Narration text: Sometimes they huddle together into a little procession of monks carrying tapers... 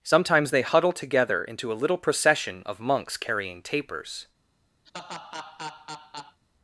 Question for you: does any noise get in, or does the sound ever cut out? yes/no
yes